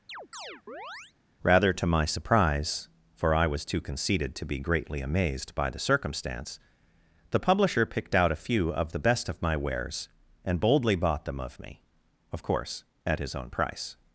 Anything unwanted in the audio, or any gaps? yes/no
yes